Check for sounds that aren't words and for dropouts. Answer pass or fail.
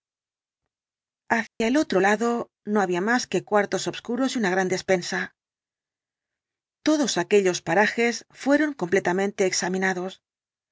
fail